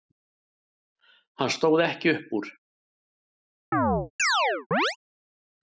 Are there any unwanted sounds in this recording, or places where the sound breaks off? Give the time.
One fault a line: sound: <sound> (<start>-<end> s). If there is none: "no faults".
sound: chirp (3.7-5.0 s)